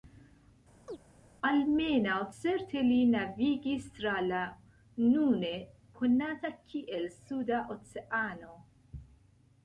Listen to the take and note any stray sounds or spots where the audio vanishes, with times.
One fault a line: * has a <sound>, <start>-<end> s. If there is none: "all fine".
* has a chirp, 0.9-1.0 s